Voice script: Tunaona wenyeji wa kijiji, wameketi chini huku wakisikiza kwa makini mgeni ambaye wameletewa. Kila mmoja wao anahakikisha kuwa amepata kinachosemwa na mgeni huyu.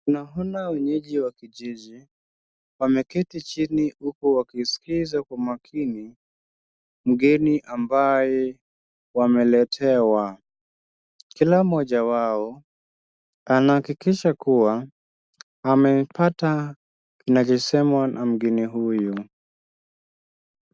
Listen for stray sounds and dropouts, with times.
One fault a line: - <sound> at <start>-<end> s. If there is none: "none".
none